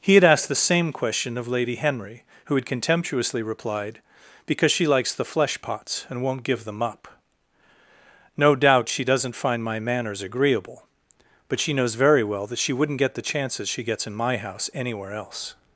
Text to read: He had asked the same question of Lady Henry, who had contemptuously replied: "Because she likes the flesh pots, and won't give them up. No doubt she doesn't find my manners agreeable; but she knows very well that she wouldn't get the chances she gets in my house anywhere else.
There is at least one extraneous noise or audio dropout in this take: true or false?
false